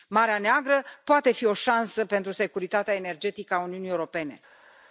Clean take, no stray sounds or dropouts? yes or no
yes